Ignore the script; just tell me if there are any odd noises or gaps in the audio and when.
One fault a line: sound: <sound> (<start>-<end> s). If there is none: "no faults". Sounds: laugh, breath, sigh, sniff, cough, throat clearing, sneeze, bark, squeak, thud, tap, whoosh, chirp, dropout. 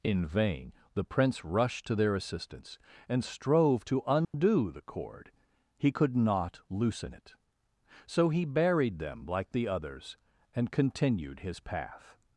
sound: dropout (4.2-4.3 s)